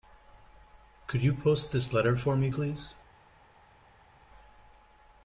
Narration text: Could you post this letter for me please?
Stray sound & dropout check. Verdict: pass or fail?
pass